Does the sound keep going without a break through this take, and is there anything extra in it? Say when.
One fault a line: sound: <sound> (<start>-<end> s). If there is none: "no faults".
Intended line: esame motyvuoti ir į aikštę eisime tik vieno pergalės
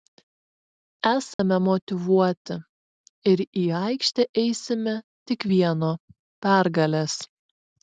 sound: dropout (1.3-1.4 s)